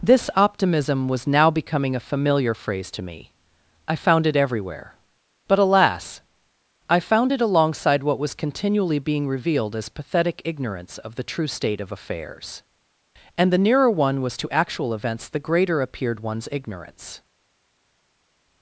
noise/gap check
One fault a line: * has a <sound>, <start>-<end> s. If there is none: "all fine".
all fine